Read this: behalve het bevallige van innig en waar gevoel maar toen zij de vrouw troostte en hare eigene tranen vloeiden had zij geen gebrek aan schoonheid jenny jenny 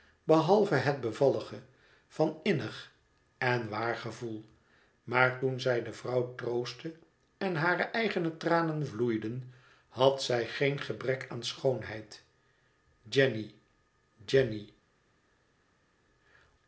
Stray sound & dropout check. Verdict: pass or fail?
pass